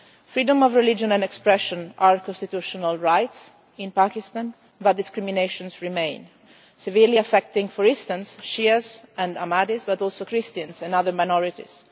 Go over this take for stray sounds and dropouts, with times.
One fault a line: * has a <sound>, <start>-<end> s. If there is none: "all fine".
all fine